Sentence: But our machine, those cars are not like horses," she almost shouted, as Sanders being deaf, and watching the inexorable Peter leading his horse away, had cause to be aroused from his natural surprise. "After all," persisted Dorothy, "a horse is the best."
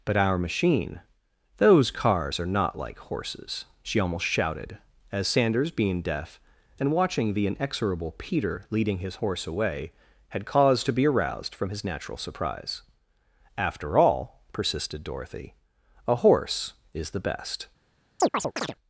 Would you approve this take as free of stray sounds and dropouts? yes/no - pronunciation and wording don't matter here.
no